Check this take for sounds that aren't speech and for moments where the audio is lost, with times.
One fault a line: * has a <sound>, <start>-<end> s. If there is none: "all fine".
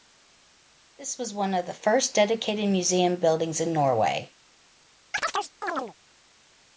* has a chirp, 5.1-5.9 s